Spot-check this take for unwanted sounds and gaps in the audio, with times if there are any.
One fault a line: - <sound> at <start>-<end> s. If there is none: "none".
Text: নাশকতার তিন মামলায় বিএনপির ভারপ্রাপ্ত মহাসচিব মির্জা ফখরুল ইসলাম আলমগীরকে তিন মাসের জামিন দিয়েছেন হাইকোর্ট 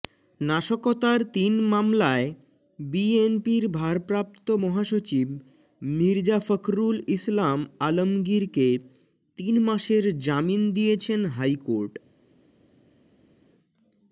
none